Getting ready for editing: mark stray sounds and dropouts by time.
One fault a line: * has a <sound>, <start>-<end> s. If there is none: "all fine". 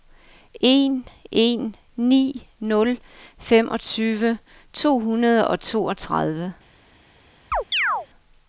* has a chirp, 7.5-8.1 s